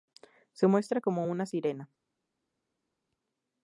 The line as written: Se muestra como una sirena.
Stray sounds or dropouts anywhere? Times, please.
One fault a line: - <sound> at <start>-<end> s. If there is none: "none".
none